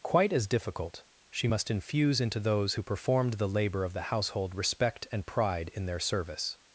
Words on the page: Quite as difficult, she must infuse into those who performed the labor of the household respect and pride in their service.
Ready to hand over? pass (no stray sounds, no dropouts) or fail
pass